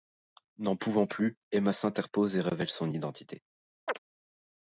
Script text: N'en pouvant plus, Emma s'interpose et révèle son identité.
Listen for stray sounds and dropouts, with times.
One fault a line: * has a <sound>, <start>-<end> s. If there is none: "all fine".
* has a chirp, 3.9-4.0 s